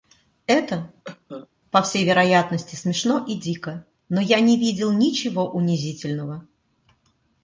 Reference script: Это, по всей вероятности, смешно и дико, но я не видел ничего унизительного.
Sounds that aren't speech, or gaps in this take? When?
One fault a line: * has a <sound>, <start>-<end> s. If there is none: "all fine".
* has a cough, 1.0-1.5 s